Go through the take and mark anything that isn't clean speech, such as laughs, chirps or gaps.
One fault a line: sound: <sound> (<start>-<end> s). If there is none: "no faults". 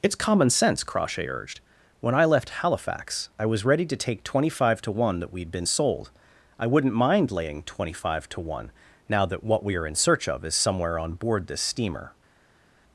no faults